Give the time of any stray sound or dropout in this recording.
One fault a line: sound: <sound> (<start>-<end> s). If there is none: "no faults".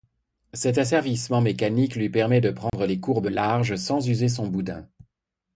sound: dropout (2.7-2.7 s)